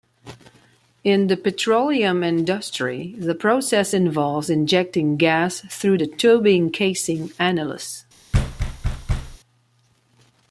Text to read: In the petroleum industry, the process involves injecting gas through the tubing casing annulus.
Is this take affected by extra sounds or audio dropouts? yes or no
yes